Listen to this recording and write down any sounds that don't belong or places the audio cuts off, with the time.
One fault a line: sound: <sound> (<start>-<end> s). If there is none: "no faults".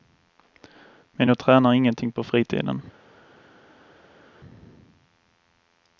no faults